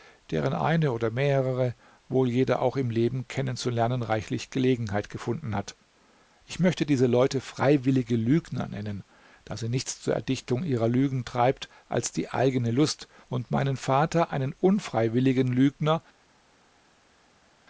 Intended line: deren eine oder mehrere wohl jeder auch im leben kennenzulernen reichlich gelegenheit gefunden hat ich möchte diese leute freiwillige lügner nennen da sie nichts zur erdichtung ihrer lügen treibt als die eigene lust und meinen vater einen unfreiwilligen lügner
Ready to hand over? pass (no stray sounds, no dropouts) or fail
pass